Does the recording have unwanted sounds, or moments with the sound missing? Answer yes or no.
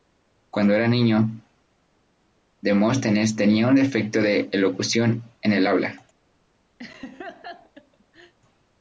yes